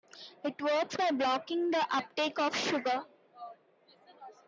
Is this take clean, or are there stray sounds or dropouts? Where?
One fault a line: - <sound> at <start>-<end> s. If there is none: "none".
none